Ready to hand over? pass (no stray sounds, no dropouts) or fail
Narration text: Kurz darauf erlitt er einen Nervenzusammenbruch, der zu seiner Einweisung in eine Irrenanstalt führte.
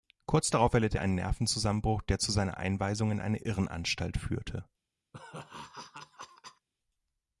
fail